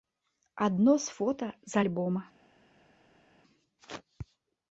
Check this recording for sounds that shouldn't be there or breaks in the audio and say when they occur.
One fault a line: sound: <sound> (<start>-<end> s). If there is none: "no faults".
no faults